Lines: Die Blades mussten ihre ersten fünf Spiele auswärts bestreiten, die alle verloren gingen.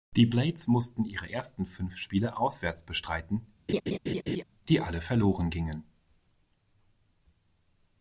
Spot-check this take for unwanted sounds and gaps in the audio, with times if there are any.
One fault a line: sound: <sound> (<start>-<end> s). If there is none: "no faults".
sound: laugh (3.7-4.4 s)